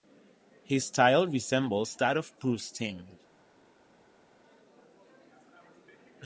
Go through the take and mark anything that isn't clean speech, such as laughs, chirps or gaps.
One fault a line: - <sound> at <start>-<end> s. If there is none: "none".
none